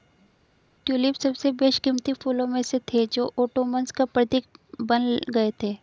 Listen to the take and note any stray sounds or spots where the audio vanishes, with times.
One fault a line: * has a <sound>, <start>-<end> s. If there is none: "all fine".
all fine